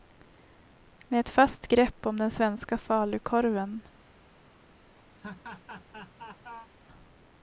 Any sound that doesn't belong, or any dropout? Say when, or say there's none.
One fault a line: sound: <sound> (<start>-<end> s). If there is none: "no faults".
sound: laugh (5.1-6.7 s)